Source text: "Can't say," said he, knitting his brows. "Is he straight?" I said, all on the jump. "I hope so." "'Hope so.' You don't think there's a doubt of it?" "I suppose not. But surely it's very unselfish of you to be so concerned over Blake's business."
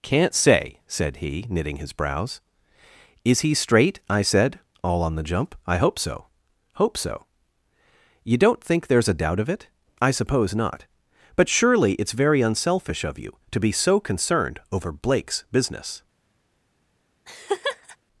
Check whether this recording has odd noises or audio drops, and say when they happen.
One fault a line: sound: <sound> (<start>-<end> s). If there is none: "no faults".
sound: laugh (17.3-18.0 s)